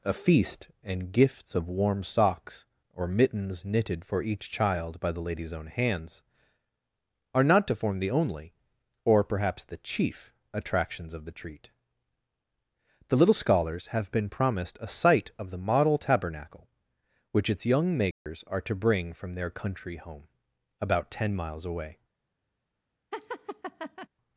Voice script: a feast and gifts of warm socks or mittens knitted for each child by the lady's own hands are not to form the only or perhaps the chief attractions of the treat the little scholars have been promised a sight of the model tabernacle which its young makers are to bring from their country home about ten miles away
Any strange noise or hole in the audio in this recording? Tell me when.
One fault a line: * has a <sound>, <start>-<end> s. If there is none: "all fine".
* has a dropout, 18.1-18.3 s
* has a laugh, 23.1-24.1 s